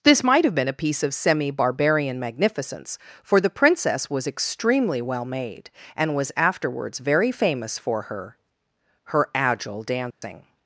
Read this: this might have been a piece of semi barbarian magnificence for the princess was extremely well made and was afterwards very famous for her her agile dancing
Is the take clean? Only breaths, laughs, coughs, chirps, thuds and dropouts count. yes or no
no